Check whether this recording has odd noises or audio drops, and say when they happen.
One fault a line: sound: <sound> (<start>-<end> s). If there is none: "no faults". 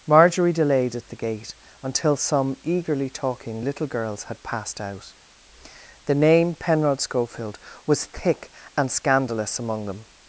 no faults